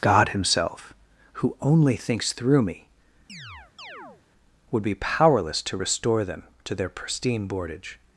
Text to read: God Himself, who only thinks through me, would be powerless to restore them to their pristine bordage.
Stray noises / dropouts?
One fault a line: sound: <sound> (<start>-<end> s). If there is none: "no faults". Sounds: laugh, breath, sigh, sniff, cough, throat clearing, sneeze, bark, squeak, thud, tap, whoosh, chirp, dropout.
sound: chirp (3.3-4.2 s)